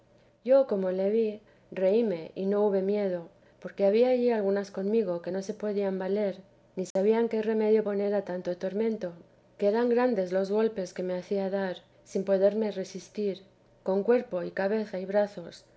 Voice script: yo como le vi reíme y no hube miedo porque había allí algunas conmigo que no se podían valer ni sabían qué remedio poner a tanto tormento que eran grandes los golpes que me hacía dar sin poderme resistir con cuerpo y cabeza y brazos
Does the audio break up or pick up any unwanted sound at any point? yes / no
yes